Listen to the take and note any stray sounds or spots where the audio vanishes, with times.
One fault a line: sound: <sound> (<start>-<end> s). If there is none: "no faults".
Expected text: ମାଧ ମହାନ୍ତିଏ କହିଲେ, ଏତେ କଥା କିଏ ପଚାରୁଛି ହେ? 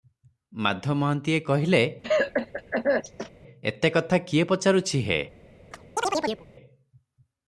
sound: cough (2.0-3.3 s)
sound: chirp (5.7-6.5 s)